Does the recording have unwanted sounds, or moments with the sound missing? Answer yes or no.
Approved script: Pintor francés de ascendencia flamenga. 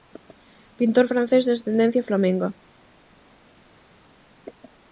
no